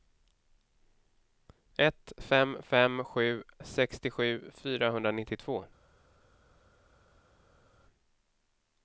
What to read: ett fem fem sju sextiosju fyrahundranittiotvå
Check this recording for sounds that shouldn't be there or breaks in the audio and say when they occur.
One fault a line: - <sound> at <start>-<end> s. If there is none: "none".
none